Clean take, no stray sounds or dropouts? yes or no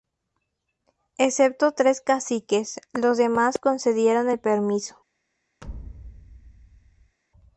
no